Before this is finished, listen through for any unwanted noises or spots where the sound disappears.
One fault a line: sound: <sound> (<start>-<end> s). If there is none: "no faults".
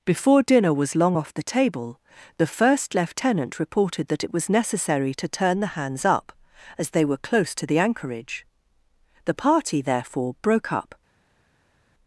no faults